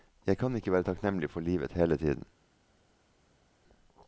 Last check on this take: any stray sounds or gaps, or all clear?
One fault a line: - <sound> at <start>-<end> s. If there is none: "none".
none